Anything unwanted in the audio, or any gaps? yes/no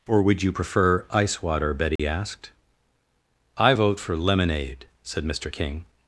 yes